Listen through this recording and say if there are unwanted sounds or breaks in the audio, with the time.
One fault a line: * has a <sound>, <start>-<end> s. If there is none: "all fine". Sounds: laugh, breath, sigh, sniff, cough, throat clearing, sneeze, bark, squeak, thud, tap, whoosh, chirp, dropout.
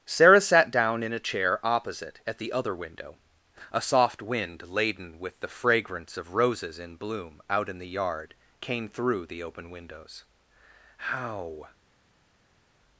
all fine